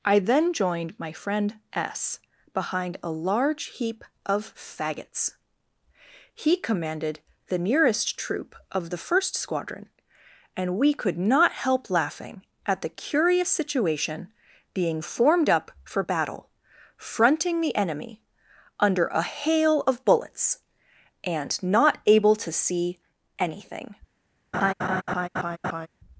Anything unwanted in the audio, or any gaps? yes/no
yes